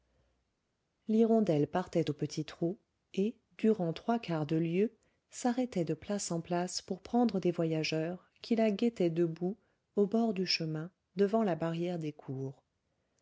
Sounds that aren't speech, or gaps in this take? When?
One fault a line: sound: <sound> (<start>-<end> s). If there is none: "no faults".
no faults